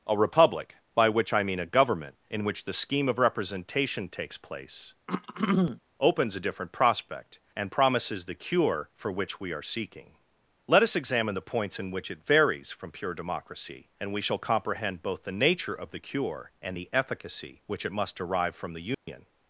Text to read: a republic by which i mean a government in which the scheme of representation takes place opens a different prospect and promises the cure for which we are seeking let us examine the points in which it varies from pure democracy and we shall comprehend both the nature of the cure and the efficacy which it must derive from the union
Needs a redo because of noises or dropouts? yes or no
yes